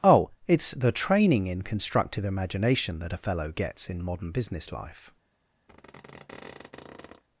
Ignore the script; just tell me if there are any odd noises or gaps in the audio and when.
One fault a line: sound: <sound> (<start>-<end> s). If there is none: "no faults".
sound: squeak (5.7-7.2 s)